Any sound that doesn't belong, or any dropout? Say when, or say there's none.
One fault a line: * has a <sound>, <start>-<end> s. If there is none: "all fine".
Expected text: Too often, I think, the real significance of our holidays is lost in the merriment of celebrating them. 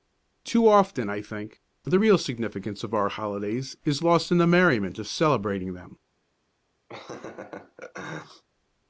* has a laugh, 6.9-8.4 s